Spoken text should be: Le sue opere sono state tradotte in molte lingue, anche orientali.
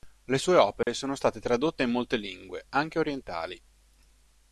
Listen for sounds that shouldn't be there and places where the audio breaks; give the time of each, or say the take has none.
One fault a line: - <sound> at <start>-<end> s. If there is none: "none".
- dropout at 0.8-0.9 s